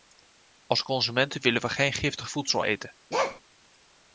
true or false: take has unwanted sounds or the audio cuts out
true